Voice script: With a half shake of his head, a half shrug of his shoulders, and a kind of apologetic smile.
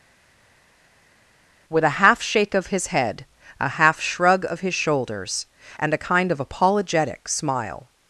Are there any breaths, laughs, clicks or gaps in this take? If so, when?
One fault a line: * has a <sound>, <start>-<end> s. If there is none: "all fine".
all fine